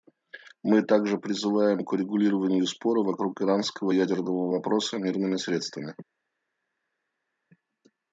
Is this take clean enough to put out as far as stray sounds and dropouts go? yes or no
yes